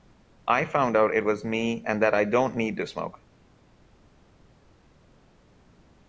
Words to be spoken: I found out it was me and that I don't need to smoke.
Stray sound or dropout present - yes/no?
no